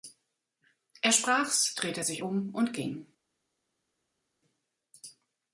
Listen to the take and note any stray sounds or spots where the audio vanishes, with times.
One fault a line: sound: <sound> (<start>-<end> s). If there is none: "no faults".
no faults